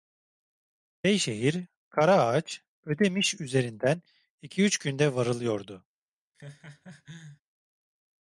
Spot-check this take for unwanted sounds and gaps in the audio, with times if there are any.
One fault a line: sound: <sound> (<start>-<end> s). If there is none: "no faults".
sound: laugh (6.3-7.4 s)